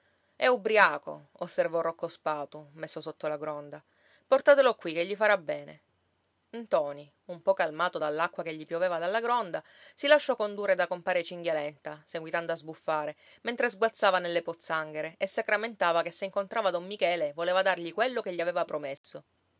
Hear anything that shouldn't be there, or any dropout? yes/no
yes